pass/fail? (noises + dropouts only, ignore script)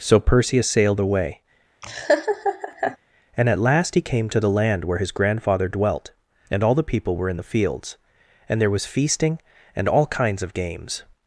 fail